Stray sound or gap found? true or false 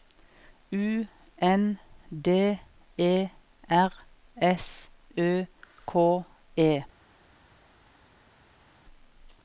false